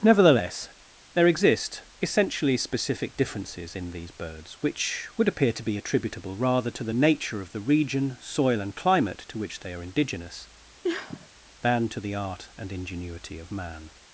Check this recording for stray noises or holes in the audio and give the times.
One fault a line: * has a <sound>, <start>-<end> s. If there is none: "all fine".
* has a sniff, 10.8-11.3 s